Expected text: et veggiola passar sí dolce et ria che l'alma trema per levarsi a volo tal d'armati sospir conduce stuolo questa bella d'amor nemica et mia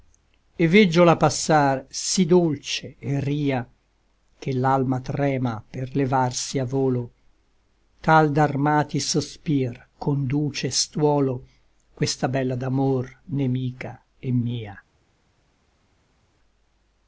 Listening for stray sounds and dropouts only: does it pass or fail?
pass